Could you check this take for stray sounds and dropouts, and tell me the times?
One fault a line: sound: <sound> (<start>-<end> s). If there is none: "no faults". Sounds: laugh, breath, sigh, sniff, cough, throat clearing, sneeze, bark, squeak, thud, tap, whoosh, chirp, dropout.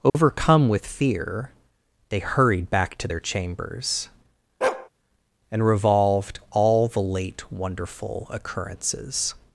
sound: dropout (0.1-0.1 s)
sound: bark (4.6-4.9 s)